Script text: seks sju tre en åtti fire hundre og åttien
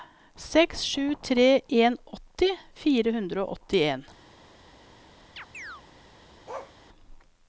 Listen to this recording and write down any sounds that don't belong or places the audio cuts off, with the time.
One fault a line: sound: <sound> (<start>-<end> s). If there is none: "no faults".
sound: chirp (5.4-5.8 s)
sound: bark (6.5-6.8 s)